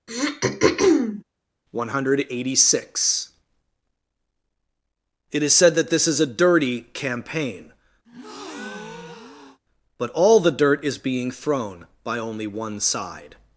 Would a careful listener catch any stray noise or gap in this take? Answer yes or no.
yes